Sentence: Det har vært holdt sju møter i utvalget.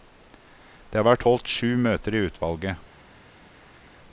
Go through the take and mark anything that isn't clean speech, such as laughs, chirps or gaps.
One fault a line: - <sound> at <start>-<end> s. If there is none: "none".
none